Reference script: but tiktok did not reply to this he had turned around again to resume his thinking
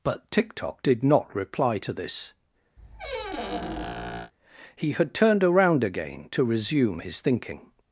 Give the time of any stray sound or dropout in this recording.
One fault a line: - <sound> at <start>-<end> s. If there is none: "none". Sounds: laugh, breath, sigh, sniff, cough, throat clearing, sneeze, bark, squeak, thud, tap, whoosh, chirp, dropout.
- squeak at 2.8-4.3 s